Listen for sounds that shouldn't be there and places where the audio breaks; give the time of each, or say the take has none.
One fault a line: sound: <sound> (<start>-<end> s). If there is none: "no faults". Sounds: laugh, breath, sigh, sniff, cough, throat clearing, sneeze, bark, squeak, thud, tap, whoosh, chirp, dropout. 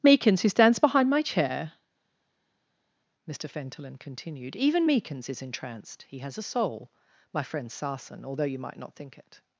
no faults